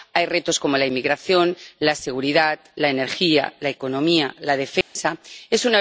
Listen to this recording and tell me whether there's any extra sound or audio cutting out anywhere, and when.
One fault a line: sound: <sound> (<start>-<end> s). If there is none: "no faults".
sound: dropout (4.8-5.0 s)